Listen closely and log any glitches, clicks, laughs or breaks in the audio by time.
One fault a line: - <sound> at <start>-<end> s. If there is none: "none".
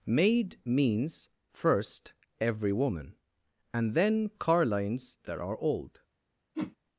- whoosh at 6.5-6.8 s